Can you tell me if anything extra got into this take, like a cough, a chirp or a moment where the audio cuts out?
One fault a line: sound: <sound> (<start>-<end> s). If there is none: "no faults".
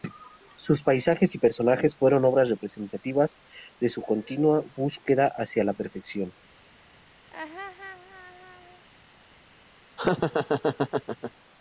sound: laugh (7.3-8.9 s)
sound: laugh (10.0-11.3 s)